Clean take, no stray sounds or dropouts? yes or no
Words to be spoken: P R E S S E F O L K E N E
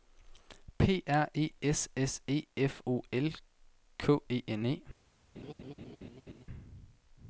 no